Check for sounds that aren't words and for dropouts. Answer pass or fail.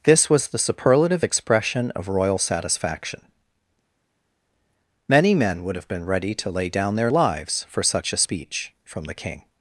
pass